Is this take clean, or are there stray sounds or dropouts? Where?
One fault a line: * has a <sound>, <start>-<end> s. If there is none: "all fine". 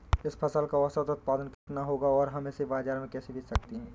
* has a dropout, 1.5-1.7 s